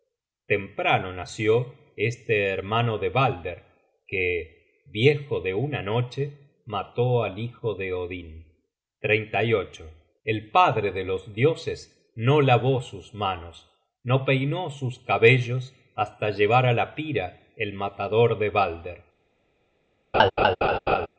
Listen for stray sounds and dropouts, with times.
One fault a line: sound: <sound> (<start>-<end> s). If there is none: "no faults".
sound: laugh (20.1-21.1 s)